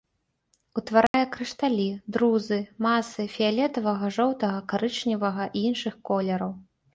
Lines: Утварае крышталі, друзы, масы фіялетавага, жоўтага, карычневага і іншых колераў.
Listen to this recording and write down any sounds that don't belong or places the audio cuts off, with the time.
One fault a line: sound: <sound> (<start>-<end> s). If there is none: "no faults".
sound: dropout (1.1-1.1 s)